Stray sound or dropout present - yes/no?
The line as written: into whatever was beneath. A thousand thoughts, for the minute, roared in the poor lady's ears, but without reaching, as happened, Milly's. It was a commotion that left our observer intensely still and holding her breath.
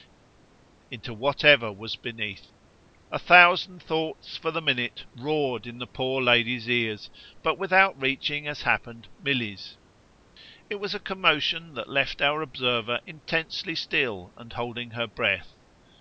no